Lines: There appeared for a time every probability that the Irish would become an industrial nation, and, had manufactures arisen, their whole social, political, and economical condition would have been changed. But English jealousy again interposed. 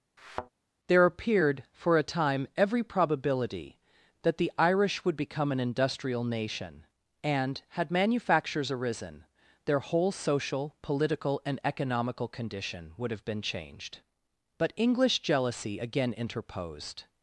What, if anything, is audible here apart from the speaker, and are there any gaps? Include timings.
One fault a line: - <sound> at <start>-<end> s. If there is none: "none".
- thud at 0.2-0.5 s